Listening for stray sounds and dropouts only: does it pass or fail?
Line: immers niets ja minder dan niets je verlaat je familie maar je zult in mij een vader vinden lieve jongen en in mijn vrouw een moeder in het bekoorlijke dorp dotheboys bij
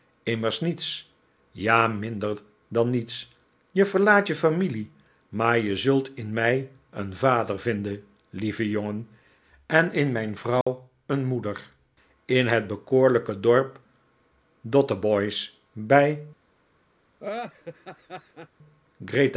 fail